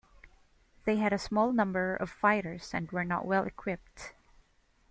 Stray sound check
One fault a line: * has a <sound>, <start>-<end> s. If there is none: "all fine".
all fine